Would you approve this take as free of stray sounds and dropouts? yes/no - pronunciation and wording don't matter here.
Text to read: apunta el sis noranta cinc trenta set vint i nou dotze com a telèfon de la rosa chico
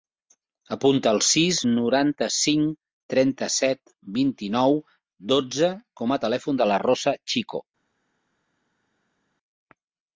yes